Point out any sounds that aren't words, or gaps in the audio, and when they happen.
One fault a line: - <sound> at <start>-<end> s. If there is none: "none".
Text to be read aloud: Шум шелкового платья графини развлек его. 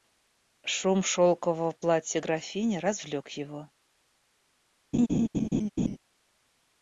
- laugh at 4.9-6.0 s